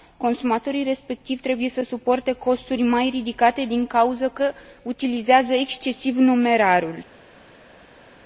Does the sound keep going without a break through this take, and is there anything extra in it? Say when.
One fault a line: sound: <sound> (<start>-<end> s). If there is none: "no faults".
no faults